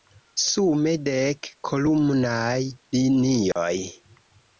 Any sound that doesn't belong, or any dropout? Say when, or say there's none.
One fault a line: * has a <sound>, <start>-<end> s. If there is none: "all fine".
* has a dropout, 3.5-3.6 s